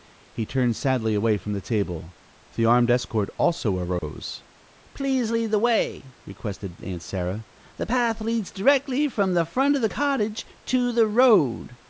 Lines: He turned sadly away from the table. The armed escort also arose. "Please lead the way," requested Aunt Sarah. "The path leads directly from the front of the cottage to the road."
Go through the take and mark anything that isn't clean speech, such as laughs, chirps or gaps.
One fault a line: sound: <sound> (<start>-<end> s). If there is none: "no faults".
sound: dropout (4.0-4.0 s)